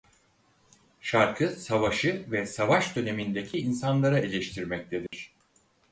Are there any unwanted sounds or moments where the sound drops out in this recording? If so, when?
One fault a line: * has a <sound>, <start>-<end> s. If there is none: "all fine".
* has a dropout, 5.1-5.1 s